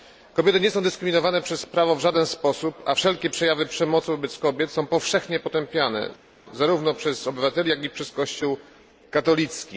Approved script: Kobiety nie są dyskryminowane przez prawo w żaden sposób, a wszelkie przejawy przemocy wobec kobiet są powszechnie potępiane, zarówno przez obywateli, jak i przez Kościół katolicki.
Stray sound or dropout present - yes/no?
no